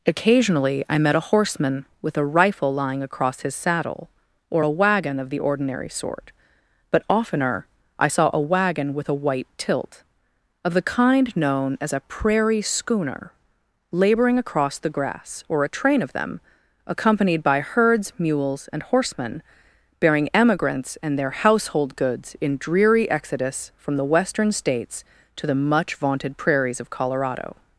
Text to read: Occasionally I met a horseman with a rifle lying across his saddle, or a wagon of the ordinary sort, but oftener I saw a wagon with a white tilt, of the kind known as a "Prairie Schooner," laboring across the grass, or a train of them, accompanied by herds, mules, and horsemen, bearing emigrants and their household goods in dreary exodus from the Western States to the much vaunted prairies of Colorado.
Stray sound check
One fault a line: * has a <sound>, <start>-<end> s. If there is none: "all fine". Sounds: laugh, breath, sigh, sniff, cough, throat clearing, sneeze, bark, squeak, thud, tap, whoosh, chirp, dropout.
all fine